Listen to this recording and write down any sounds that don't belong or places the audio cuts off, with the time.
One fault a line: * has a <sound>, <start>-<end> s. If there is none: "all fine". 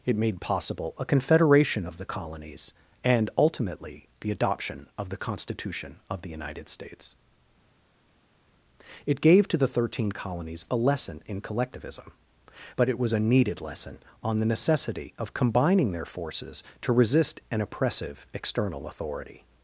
all fine